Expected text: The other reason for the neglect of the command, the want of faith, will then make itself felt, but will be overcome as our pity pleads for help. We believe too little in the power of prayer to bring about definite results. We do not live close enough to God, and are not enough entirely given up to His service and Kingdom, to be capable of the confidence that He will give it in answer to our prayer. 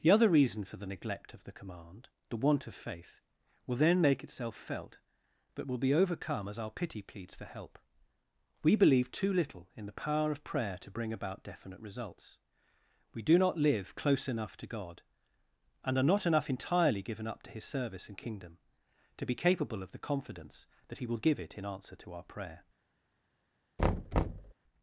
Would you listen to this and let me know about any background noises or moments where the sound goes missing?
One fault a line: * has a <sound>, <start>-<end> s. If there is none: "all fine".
* has a thud, 23.8-24.5 s